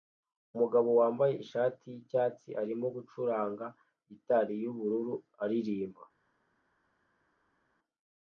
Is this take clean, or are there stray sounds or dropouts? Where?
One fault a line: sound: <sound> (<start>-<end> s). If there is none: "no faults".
no faults